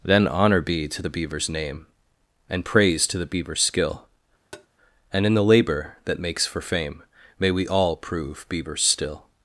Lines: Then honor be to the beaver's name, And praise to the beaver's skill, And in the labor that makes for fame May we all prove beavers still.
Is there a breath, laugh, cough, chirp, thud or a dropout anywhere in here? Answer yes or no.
yes